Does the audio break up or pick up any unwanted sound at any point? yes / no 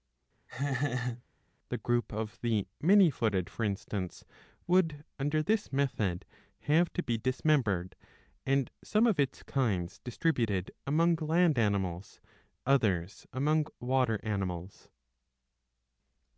yes